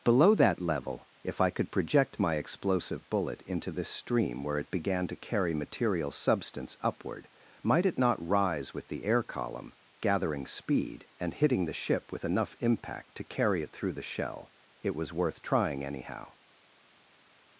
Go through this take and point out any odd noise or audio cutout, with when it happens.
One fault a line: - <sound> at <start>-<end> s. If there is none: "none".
none